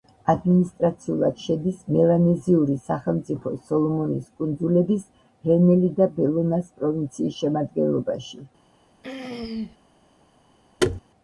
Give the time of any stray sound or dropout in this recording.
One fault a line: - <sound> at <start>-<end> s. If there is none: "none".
- throat clearing at 9.0-9.8 s
- thud at 10.8-11.0 s